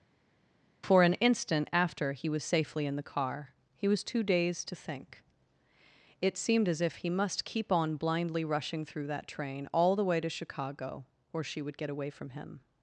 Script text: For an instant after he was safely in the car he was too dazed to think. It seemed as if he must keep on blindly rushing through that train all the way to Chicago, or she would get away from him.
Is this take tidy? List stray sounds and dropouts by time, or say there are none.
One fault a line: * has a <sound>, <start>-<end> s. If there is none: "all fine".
all fine